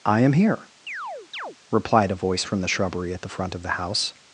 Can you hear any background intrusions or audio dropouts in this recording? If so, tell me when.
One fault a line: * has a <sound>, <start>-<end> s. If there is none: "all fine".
* has a chirp, 0.9-1.6 s